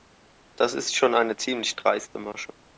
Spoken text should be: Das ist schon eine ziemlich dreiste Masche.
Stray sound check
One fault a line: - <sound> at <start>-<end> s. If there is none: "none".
none